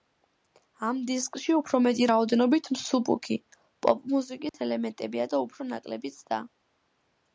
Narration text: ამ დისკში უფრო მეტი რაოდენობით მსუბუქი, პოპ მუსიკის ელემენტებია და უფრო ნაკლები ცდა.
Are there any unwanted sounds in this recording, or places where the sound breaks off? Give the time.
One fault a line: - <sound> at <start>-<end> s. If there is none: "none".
- dropout at 4.5-4.5 s